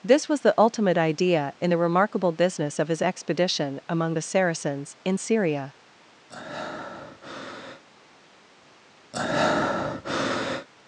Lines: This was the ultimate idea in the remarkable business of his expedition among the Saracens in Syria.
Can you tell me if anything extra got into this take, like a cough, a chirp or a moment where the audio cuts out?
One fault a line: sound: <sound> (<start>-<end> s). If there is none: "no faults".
sound: breath (6.3-7.8 s)
sound: breath (9.1-10.7 s)